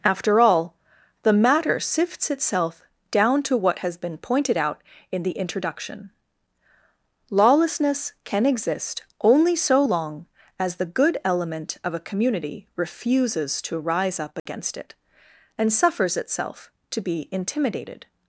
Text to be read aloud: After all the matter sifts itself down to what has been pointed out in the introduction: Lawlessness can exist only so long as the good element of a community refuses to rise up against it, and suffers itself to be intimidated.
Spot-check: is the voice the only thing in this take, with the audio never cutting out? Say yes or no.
no